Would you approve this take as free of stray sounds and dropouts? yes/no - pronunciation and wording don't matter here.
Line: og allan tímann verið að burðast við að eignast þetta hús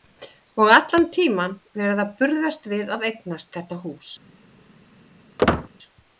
no